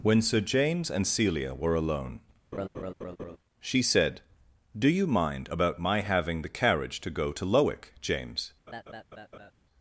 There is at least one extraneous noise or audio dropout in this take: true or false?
true